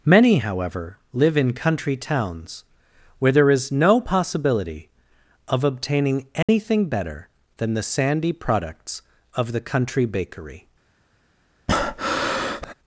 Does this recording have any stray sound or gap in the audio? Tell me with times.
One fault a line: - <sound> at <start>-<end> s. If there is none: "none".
- dropout at 6.4-6.5 s
- breath at 11.7-12.7 s